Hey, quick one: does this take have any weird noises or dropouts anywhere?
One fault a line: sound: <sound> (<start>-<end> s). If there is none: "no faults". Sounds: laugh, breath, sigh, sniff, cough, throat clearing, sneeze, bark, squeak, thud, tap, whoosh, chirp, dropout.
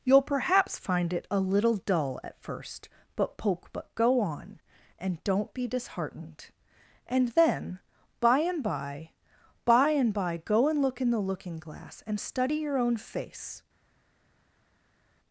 no faults